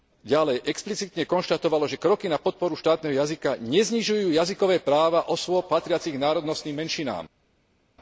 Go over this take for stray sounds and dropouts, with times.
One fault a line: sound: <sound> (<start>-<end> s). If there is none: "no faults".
no faults